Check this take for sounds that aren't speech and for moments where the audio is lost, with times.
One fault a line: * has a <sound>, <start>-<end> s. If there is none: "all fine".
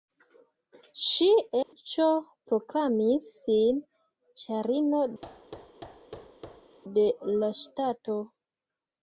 * has a dropout, 1.6-1.7 s
* has a thud, 5.2-6.8 s